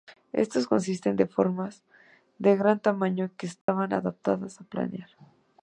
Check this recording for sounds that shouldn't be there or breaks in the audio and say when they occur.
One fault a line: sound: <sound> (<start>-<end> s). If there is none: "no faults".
sound: dropout (3.6-3.7 s)